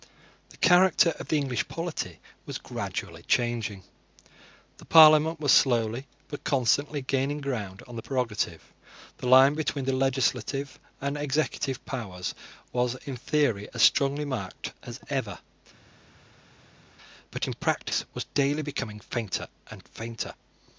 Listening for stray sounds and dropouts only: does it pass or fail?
pass